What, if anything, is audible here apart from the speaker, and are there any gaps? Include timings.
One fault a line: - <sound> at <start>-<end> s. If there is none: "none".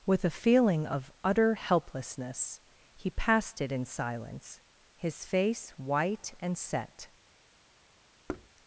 - thud at 8.3-8.5 s